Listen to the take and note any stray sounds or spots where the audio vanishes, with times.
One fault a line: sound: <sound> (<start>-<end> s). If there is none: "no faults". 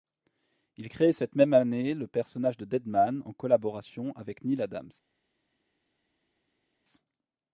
no faults